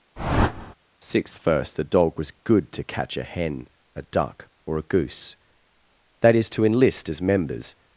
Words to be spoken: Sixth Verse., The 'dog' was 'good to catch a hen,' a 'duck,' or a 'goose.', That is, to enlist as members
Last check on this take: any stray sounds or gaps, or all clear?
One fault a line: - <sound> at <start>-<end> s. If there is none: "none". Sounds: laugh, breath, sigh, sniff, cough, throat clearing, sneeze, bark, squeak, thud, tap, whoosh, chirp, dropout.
- whoosh at 0.2-0.7 s